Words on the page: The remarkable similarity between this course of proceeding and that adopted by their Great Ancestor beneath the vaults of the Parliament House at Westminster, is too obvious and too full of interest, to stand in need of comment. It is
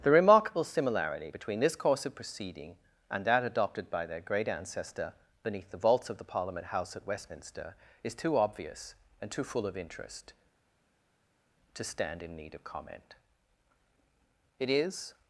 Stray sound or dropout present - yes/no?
no